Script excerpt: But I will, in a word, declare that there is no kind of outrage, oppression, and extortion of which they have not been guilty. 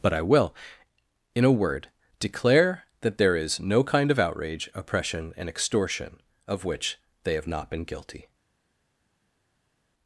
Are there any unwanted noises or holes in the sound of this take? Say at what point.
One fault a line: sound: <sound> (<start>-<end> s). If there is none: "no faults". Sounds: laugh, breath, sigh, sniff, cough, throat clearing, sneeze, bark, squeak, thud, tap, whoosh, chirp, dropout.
no faults